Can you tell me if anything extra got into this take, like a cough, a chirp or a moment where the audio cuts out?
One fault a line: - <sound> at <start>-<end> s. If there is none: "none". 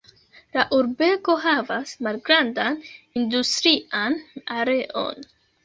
none